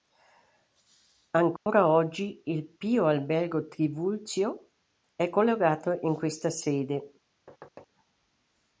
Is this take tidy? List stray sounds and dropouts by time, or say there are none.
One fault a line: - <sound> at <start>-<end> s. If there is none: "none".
- dropout at 1.6-1.7 s
- thud at 7.5-7.9 s